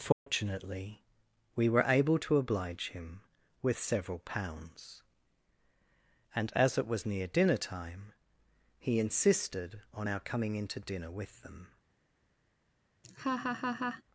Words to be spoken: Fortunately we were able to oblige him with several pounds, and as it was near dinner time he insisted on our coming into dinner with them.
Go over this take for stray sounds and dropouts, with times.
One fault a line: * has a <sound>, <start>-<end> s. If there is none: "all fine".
* has a dropout, 0.1-0.3 s
* has a laugh, 13.0-14.0 s